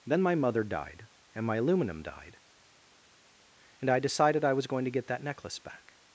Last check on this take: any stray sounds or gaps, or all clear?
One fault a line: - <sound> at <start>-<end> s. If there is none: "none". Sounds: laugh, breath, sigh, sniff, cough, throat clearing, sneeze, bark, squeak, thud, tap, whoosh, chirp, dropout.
none